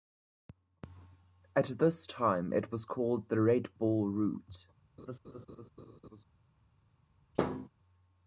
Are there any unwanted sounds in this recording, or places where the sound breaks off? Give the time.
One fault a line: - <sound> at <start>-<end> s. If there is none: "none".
- laugh at 5.0-6.2 s
- thud at 7.3-7.7 s